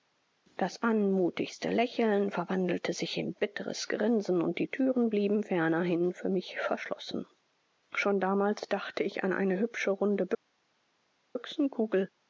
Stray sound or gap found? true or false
false